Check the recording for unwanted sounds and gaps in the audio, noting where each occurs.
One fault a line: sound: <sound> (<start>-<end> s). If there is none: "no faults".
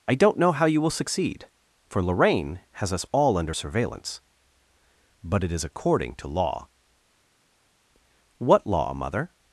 no faults